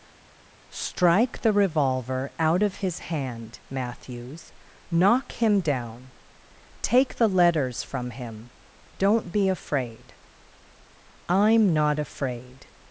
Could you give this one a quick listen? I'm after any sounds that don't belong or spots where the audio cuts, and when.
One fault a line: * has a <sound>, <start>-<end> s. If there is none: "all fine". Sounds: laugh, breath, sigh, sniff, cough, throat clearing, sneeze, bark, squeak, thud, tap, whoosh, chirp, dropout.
all fine